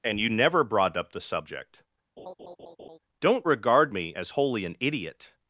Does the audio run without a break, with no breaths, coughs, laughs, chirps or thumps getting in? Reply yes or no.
no